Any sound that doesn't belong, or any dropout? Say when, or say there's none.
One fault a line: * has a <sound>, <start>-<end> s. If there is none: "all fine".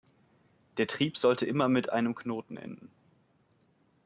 all fine